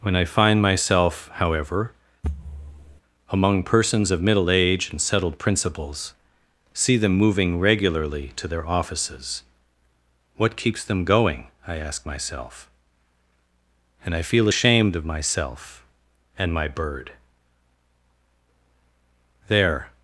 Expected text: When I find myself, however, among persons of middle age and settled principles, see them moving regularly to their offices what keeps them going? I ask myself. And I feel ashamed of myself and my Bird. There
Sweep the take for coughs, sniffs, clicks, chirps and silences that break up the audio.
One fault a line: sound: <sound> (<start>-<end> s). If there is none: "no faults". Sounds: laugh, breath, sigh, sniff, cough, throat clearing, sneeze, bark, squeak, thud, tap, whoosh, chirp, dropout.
sound: thud (2.2-3.0 s)